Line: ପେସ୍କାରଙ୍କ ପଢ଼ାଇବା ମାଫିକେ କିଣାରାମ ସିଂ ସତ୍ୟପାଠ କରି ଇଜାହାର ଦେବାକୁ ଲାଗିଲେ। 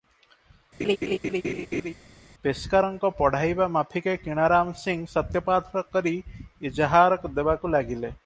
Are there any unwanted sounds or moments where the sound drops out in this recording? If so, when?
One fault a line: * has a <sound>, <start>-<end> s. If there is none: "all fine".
* has a laugh, 0.8-1.9 s